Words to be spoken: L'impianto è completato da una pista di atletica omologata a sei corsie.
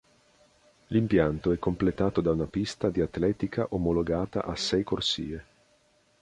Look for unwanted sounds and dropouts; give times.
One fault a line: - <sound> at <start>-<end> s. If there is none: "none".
none